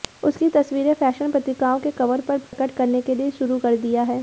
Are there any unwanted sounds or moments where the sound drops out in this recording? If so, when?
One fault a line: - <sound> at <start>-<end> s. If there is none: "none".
- dropout at 2.5-2.5 s